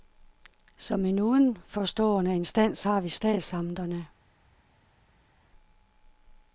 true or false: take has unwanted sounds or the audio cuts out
false